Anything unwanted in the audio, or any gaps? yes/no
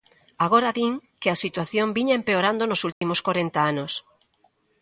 yes